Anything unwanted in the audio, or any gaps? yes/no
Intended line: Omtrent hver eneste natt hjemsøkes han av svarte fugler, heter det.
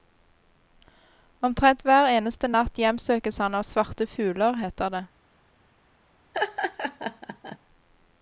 yes